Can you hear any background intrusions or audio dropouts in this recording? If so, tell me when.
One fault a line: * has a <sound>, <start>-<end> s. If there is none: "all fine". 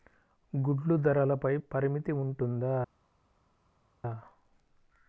all fine